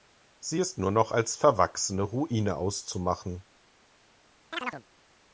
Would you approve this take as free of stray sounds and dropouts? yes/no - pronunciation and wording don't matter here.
no